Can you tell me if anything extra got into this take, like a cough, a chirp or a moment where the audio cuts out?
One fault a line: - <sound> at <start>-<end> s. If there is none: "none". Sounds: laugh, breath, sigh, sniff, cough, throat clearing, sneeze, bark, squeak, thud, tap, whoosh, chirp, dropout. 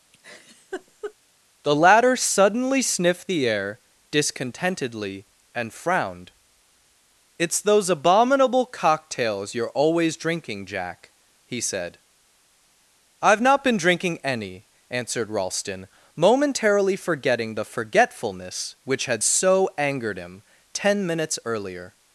- laugh at 0.1-1.1 s